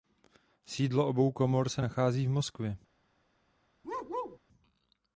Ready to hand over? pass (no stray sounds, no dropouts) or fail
fail